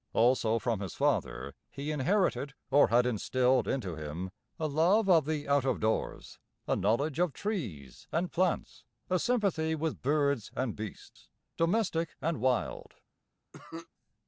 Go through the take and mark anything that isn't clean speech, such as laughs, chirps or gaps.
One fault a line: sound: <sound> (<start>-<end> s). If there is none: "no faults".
sound: cough (13.5-13.9 s)